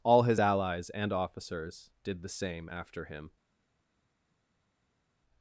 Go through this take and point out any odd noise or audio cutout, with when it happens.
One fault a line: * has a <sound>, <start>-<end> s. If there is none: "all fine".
all fine